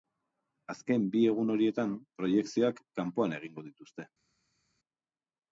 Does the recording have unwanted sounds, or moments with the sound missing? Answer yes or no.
no